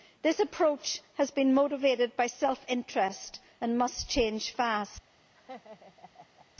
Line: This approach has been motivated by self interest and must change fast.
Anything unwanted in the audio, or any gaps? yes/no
yes